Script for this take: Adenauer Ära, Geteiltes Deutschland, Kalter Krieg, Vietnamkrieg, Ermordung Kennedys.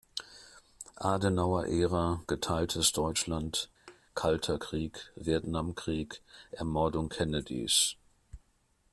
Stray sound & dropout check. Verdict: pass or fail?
fail